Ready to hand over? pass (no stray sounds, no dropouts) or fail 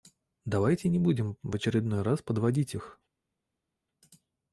pass